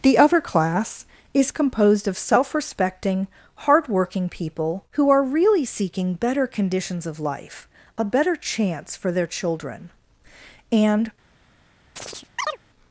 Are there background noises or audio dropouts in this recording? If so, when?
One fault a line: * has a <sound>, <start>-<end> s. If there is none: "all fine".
* has a chirp, 12.0-12.6 s